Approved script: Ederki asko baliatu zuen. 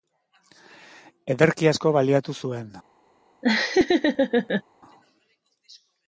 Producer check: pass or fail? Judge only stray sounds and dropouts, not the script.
fail